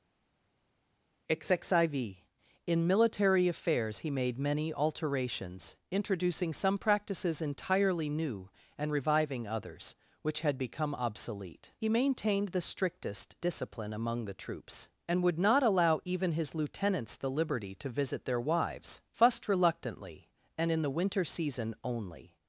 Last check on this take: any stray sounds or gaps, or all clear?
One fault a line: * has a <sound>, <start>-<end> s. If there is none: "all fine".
all fine